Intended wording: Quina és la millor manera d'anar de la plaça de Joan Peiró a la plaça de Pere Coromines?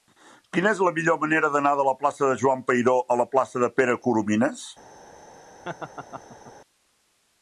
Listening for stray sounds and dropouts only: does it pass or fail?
fail